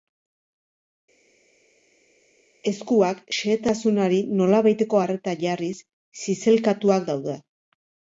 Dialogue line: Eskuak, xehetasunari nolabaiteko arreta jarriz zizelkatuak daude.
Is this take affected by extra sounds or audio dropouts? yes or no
no